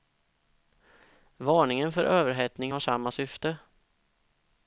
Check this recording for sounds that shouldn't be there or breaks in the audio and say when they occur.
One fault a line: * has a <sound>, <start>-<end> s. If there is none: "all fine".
all fine